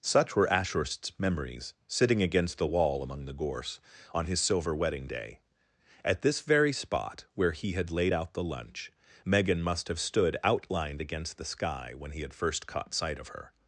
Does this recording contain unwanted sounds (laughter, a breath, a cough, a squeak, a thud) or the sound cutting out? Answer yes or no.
no